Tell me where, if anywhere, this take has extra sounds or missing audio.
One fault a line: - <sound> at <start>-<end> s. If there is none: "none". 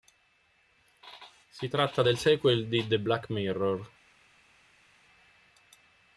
none